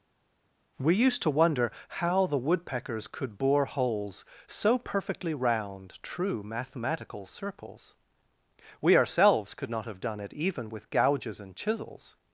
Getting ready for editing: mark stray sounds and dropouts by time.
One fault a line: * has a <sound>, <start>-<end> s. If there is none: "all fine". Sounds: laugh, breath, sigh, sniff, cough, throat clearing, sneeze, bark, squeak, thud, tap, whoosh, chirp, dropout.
all fine